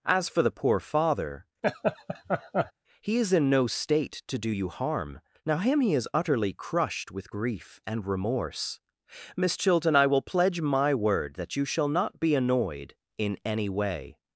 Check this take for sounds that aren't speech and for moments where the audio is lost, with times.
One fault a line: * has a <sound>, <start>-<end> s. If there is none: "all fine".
* has a laugh, 1.6-2.7 s